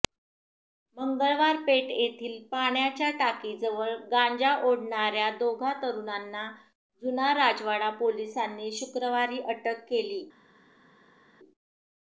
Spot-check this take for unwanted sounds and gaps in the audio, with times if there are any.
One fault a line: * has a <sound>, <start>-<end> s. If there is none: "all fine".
all fine